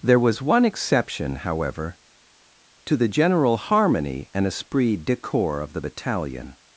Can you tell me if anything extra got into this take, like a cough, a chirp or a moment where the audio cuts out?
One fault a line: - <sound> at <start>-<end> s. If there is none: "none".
none